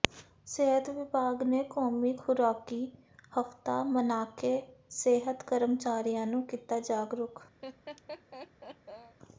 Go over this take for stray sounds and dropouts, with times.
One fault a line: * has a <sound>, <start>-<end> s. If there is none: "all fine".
* has a laugh, 7.6-9.2 s